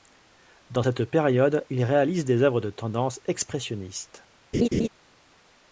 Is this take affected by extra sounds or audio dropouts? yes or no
yes